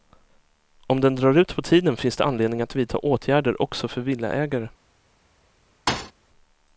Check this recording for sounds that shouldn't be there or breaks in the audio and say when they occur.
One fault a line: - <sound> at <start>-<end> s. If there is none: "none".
- thud at 5.9-6.1 s